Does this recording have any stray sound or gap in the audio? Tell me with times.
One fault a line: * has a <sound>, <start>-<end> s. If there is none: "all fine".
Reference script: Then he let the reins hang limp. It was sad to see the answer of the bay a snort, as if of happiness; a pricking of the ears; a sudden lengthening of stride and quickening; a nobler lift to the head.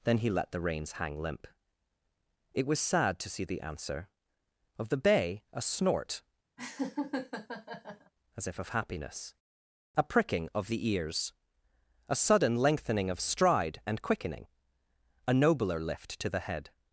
* has a laugh, 6.6-8.1 s